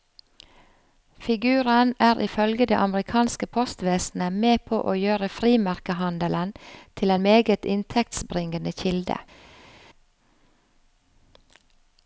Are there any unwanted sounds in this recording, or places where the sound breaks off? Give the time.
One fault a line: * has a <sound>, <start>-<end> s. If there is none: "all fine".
all fine